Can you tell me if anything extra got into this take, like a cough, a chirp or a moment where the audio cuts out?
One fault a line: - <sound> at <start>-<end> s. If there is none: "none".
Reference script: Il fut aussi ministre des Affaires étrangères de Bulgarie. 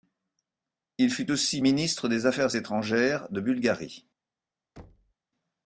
- thud at 4.8-5.1 s